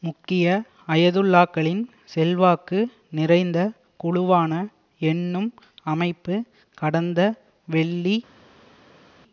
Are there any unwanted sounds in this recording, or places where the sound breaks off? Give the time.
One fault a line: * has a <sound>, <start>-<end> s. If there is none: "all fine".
all fine